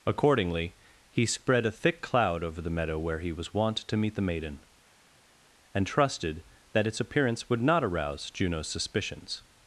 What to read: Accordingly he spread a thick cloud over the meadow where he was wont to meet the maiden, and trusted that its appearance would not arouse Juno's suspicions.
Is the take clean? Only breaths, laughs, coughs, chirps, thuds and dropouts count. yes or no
yes